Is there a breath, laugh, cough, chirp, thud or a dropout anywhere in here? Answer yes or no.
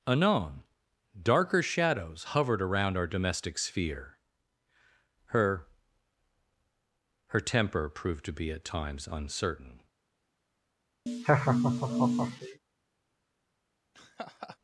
yes